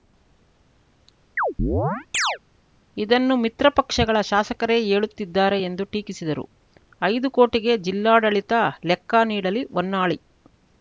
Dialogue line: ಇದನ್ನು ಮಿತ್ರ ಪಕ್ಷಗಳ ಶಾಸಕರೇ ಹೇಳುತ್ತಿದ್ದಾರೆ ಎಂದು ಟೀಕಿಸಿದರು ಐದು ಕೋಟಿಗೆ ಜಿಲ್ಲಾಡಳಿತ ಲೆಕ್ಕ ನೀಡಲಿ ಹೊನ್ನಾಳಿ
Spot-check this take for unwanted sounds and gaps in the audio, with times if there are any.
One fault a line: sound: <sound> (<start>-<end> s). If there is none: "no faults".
sound: chirp (1.4-2.4 s)